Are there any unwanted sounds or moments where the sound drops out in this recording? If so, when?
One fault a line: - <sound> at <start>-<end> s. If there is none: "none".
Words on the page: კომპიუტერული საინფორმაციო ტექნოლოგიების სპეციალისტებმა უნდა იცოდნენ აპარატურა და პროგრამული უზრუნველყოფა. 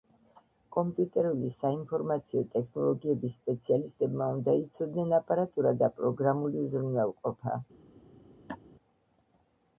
- laugh at 8.5-8.6 s